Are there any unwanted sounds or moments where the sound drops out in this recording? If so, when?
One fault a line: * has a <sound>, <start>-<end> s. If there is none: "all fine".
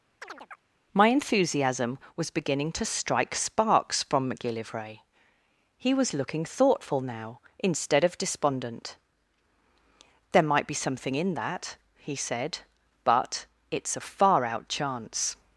* has a chirp, 0.2-0.6 s